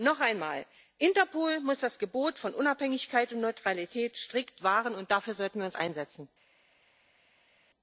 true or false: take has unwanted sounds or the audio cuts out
false